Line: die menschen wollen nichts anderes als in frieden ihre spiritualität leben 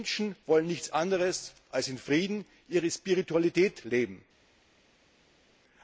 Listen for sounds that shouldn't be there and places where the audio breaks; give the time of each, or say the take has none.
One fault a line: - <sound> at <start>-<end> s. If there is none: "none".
none